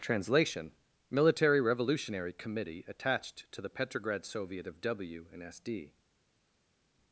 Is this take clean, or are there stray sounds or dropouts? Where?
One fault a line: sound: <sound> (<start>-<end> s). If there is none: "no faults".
no faults